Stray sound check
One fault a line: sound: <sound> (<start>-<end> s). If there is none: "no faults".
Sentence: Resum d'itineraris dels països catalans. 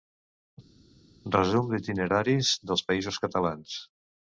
no faults